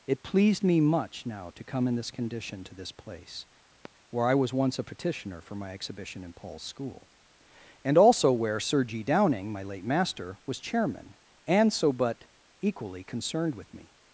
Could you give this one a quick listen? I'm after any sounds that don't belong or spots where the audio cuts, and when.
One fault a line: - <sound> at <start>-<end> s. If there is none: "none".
- sigh at 3.7-3.9 s